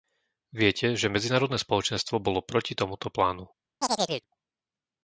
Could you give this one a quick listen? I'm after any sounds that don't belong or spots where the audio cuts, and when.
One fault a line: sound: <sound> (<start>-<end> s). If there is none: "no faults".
sound: chirp (3.8-4.3 s)